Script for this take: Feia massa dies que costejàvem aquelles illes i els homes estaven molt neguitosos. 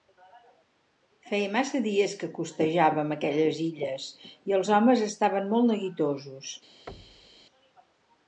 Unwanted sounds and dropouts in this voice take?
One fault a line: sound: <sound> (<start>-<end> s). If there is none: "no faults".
sound: thud (6.9-7.5 s)